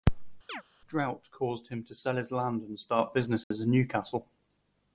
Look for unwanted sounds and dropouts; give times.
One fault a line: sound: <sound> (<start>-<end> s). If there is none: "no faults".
sound: chirp (0.5-0.6 s)
sound: dropout (3.4-3.5 s)